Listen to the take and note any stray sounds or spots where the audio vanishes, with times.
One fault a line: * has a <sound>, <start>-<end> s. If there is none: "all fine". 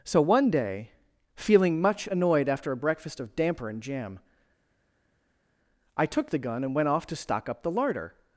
all fine